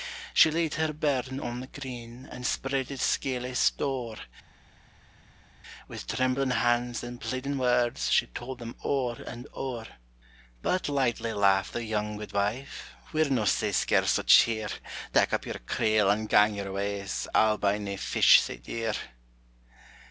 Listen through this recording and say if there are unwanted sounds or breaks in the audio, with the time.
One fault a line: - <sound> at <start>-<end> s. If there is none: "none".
none